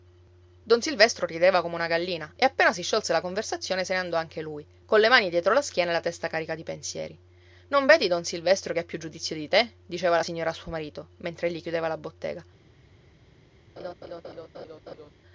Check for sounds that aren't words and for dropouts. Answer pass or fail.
fail